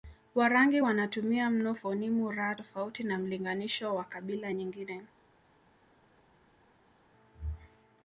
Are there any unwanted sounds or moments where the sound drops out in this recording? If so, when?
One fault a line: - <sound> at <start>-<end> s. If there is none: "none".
none